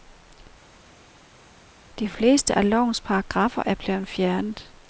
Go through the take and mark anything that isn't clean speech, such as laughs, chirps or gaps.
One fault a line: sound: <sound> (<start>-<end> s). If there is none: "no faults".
no faults